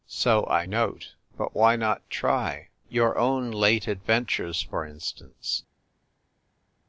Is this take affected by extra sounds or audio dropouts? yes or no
no